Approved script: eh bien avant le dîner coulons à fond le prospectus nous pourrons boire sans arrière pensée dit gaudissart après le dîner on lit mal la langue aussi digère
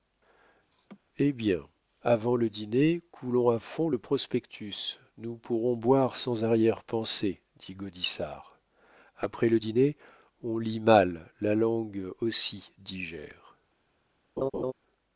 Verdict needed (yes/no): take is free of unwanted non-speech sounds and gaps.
no